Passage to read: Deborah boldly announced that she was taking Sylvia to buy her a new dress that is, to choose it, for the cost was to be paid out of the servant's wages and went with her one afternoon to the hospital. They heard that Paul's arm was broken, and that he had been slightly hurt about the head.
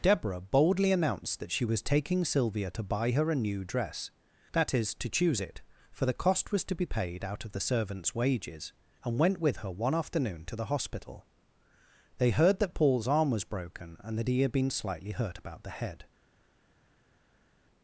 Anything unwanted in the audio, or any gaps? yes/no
no